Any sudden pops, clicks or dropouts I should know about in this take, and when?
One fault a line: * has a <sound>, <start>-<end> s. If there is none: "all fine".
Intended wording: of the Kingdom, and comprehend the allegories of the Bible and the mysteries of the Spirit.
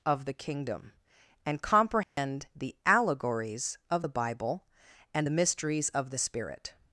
* has a dropout, 2.0-2.2 s